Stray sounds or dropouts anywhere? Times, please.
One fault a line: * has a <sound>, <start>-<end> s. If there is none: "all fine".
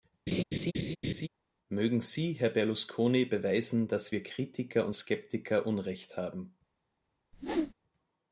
* has a laugh, 0.3-1.3 s
* has a whoosh, 7.3-7.7 s